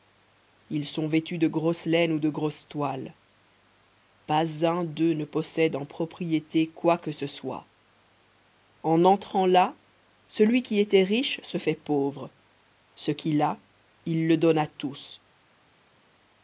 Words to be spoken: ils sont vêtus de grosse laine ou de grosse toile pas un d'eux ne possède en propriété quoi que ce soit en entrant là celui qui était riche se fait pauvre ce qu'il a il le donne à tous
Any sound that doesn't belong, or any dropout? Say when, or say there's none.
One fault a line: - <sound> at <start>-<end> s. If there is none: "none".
none